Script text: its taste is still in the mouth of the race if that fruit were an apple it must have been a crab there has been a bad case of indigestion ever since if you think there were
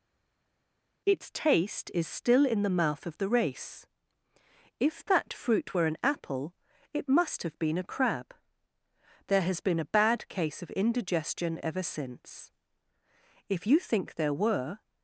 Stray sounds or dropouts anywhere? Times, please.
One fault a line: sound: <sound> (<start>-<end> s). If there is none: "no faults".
no faults